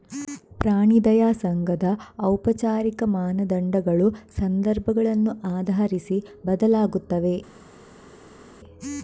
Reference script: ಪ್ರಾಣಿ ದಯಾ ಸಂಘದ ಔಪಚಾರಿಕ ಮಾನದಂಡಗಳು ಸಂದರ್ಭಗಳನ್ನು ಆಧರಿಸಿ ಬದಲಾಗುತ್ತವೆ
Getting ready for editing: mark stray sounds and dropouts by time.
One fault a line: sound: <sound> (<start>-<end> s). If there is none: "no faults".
no faults